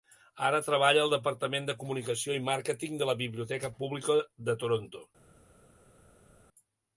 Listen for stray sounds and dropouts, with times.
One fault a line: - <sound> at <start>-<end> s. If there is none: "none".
none